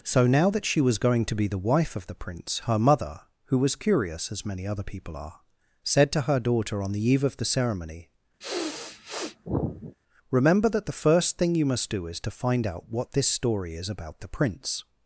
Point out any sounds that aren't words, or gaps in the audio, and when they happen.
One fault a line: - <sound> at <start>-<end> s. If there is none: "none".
- sniff at 8.4-10.0 s